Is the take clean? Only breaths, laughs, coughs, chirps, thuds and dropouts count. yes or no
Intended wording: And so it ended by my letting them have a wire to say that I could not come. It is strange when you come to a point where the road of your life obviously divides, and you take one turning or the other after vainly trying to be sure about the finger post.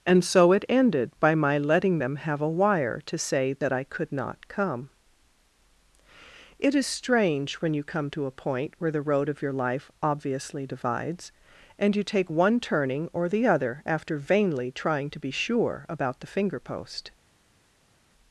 yes